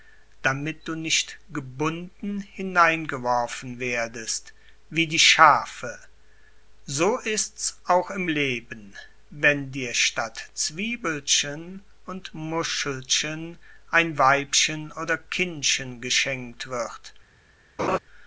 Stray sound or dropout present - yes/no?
yes